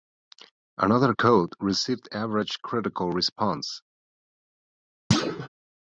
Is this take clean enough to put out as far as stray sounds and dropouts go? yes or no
no